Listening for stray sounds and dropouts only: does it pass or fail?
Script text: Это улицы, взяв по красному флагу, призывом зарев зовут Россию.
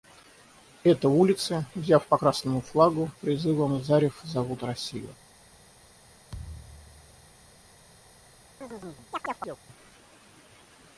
fail